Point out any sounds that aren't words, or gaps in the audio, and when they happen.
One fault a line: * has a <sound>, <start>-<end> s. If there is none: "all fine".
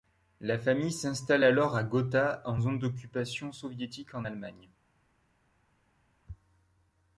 all fine